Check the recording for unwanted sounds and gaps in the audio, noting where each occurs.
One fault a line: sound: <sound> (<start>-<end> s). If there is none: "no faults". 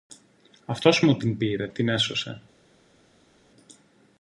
no faults